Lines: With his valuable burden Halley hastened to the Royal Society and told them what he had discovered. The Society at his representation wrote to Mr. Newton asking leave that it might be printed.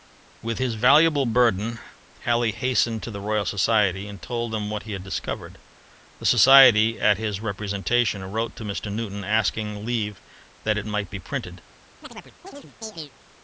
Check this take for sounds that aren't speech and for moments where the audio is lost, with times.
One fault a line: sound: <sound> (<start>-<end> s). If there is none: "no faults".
sound: chirp (12.0-13.1 s)